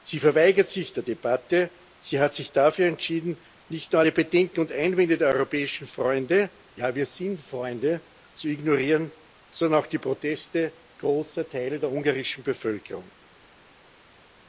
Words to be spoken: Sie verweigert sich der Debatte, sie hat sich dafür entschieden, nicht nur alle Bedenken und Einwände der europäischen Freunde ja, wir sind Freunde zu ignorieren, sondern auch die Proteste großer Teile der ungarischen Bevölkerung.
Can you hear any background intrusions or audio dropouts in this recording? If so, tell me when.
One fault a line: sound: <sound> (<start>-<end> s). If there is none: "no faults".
no faults